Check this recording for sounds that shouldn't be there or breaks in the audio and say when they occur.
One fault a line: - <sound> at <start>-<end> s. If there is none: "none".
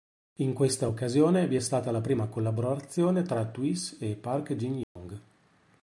- dropout at 4.8-5.0 s